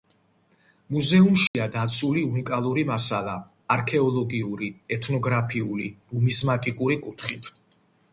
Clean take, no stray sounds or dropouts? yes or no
no